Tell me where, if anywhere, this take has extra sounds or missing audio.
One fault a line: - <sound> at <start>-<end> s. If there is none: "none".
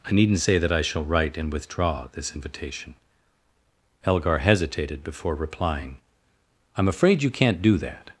none